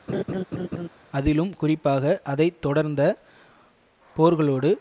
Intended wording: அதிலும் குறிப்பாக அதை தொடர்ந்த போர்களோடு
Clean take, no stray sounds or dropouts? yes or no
no